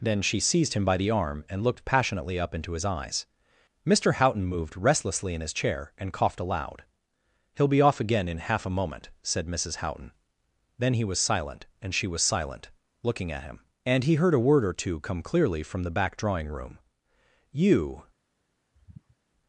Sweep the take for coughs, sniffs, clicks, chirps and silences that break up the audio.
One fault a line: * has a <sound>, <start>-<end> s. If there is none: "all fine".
* has a sigh, 18.7-19.2 s